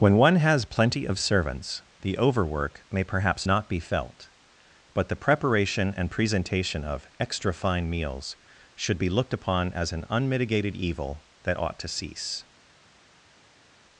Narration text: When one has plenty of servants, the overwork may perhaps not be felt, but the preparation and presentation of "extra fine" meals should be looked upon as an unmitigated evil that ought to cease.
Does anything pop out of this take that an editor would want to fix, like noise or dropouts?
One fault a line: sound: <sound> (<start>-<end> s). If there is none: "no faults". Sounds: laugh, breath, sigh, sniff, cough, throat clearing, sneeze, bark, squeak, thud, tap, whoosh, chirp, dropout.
no faults